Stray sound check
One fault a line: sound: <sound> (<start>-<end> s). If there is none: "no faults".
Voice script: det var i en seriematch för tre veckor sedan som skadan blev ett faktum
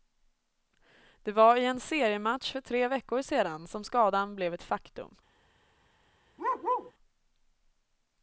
sound: bark (6.4-6.9 s)